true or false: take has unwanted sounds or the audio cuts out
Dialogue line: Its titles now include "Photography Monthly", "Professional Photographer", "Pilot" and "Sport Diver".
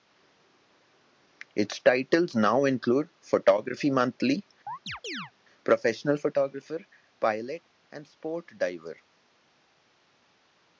true